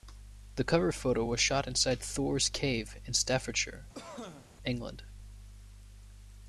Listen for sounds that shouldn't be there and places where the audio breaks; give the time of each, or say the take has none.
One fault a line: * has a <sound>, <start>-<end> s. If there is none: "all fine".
* has a cough, 3.9-4.5 s